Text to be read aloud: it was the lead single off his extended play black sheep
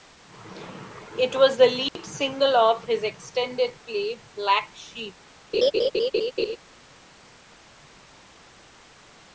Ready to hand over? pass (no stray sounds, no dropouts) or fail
fail